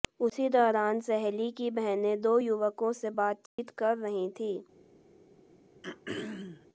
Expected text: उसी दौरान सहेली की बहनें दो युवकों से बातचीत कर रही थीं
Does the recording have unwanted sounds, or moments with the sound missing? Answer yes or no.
yes